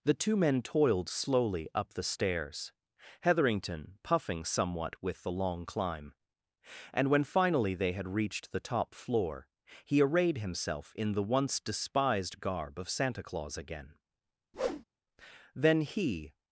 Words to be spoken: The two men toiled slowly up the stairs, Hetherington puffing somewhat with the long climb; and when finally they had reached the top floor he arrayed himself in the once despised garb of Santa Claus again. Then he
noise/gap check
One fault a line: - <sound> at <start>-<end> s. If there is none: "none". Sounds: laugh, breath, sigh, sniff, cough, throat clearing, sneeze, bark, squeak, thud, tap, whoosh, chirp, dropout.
- whoosh at 14.5-14.8 s